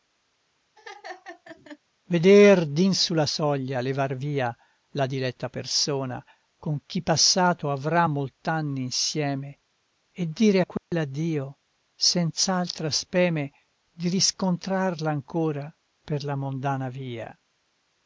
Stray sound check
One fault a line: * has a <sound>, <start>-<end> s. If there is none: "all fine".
* has a laugh, 0.8-1.8 s
* has a dropout, 10.8-10.9 s